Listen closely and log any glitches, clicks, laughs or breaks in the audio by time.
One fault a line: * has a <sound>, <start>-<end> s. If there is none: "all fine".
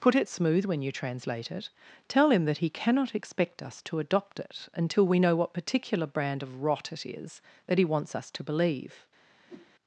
* has a whoosh, 9.5-9.7 s